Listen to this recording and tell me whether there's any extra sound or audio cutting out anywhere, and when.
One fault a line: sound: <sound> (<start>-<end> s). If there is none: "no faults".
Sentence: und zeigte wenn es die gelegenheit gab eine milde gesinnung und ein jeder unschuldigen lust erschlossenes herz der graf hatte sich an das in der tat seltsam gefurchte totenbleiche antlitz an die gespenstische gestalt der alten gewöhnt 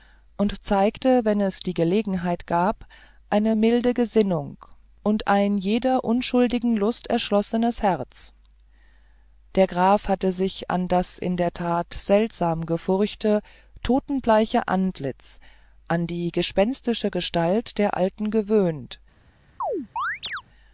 sound: chirp (19.6-20.4 s)